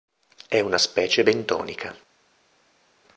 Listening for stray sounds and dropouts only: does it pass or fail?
pass